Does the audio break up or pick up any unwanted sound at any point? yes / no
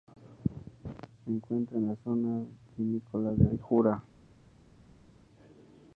no